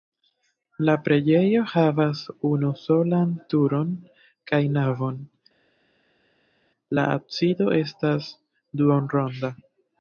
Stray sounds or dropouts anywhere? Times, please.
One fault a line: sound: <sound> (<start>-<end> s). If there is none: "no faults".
no faults